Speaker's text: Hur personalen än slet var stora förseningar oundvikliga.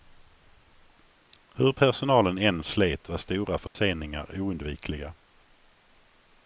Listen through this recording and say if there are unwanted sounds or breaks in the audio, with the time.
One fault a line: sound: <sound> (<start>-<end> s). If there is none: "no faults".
sound: dropout (3.7-3.8 s)